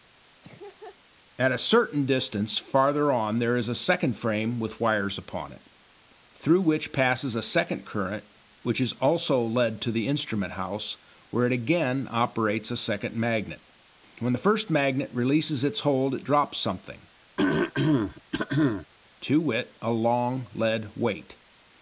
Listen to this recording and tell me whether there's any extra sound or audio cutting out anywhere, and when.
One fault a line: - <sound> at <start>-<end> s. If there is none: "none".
- laugh at 0.4-1.0 s
- throat clearing at 17.4-18.9 s